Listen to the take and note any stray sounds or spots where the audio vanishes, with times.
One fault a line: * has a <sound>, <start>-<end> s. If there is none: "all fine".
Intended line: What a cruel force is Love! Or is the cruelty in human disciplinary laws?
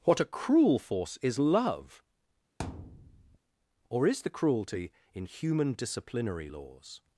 * has a thud, 2.6-3.4 s